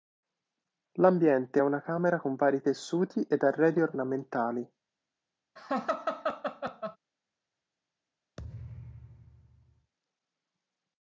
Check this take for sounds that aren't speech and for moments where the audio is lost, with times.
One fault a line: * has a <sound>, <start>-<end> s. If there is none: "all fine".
* has a laugh, 5.6-7.0 s
* has a thud, 8.4-9.9 s